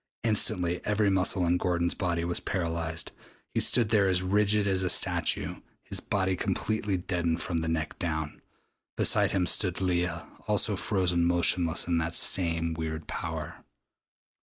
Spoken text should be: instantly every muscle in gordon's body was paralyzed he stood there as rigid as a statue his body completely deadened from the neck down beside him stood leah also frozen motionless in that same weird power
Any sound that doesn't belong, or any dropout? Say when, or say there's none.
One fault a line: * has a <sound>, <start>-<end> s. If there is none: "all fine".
all fine